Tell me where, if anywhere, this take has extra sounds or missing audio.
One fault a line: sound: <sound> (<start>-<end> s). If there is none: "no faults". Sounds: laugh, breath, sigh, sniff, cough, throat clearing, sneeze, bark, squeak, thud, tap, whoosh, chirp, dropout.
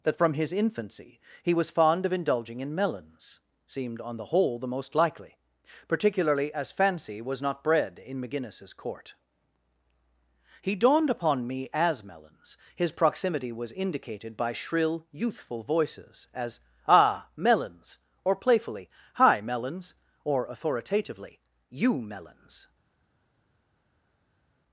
no faults